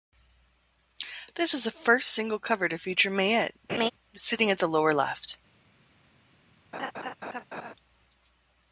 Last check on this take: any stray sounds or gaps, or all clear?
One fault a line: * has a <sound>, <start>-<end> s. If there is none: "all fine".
* has a laugh, 3.7-3.9 s
* has a laugh, 6.7-7.7 s